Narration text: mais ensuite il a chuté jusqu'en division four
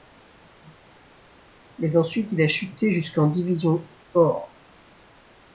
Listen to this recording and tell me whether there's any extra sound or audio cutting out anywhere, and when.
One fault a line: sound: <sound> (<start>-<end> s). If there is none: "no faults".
no faults